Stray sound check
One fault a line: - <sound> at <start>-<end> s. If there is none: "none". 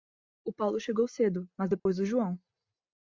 - dropout at 1.8-1.9 s